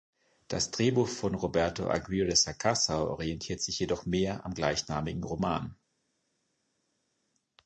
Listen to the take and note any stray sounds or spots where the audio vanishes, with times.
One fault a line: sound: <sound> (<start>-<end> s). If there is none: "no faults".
no faults